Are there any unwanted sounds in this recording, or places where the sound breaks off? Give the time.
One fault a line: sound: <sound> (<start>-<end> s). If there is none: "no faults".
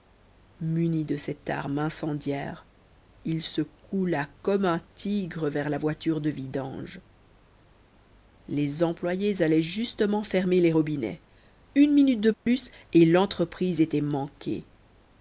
sound: dropout (12.3-12.5 s)